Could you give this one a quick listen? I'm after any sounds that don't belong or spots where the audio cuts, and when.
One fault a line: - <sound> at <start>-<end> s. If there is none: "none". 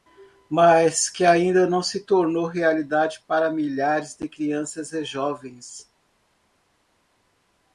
none